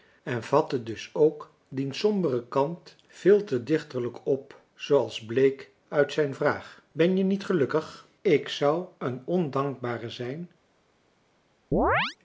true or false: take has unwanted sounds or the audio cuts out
true